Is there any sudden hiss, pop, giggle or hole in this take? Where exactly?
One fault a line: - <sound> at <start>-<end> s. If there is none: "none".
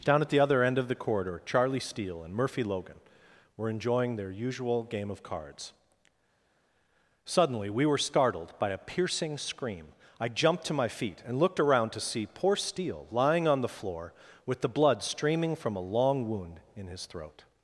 none